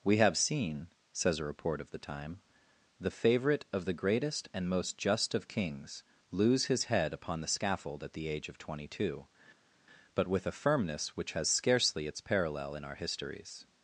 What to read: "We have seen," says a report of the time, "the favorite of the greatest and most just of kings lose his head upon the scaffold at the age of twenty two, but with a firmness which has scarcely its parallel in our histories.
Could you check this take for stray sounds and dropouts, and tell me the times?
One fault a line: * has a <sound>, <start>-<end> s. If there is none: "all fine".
all fine